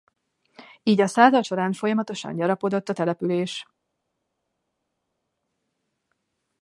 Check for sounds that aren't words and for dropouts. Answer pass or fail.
pass